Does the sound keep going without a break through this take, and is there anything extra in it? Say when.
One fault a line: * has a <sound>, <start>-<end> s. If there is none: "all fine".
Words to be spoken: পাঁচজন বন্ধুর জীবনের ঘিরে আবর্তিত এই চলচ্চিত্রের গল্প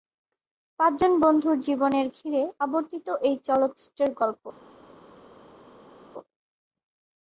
all fine